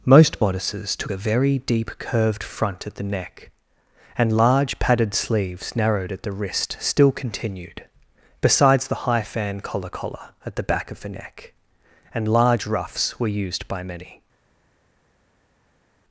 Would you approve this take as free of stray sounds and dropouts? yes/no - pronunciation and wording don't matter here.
yes